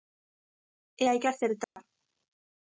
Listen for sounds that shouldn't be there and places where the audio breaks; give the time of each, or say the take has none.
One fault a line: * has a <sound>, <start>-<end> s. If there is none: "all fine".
* has a dropout, 1.6-1.8 s